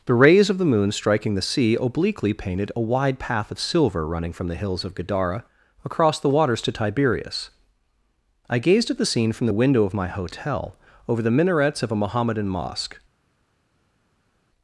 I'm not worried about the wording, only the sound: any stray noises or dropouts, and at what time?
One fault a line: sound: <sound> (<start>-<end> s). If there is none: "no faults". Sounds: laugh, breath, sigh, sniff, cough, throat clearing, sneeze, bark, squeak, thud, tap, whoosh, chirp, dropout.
no faults